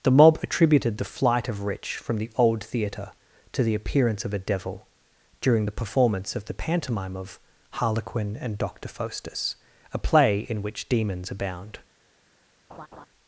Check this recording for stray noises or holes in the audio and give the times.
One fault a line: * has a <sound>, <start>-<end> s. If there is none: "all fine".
* has a laugh, 12.7-13.1 s